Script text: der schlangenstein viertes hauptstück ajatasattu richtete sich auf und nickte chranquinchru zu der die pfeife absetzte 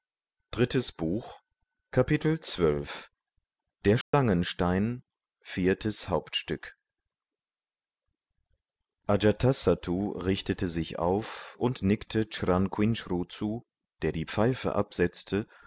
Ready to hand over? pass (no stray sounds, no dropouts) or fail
fail